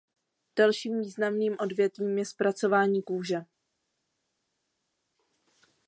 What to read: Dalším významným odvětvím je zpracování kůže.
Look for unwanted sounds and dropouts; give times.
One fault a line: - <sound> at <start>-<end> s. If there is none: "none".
none